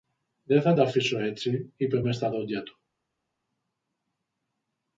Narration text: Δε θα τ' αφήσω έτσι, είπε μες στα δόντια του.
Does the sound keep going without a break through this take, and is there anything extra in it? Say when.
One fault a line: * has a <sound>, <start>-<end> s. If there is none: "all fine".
all fine